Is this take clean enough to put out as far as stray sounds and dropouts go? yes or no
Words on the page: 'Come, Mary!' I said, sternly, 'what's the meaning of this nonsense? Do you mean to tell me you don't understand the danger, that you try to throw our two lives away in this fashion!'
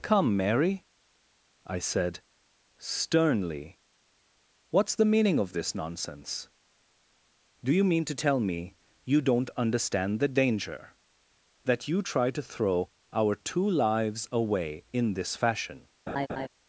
no